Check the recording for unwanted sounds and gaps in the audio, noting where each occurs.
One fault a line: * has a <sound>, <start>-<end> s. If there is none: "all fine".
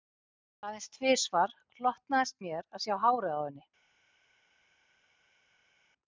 all fine